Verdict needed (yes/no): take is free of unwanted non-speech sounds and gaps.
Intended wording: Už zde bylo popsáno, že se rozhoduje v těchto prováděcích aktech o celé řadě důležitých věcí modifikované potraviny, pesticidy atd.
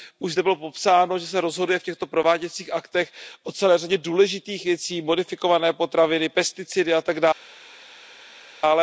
yes